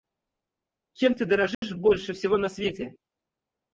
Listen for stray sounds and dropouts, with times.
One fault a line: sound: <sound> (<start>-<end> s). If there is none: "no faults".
sound: dropout (1.5-1.6 s)